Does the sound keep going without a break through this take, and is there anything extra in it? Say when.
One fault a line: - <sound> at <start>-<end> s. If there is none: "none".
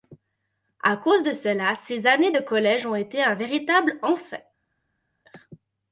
none